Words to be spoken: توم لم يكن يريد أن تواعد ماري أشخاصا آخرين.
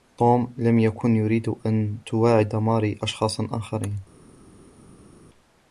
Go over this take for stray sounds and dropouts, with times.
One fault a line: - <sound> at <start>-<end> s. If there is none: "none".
none